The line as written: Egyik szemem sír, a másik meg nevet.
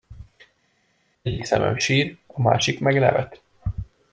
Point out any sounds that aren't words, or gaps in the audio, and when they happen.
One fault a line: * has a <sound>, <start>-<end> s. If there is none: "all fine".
all fine